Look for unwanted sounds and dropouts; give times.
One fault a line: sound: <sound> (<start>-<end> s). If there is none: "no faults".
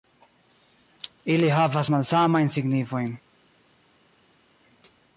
no faults